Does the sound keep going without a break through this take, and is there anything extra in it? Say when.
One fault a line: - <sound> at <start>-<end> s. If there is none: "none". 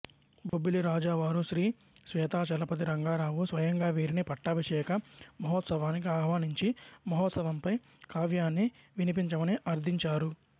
- dropout at 0.5-0.5 s